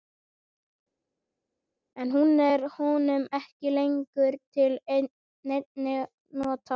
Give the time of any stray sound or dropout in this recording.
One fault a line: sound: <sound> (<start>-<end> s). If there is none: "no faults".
no faults